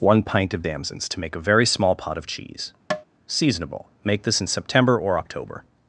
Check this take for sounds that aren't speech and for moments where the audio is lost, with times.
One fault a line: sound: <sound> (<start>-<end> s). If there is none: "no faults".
sound: tap (2.9-3.1 s)